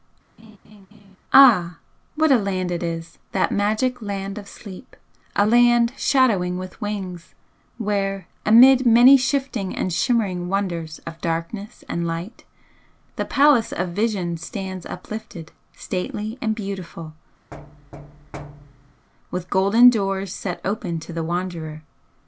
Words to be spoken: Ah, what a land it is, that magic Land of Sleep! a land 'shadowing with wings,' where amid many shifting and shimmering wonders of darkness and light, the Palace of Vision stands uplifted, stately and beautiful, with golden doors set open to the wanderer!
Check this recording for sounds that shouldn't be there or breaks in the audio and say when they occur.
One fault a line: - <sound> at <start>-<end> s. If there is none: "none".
- laugh at 0.4-1.2 s
- thud at 17.5-19.1 s